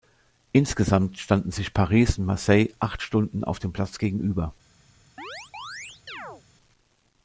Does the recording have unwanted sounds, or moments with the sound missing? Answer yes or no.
yes